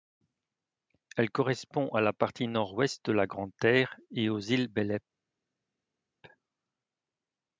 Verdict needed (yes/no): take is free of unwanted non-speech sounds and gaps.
yes